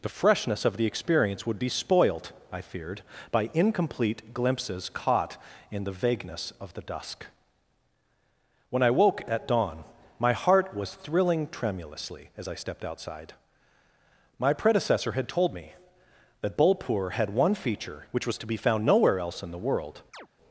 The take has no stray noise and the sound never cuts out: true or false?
false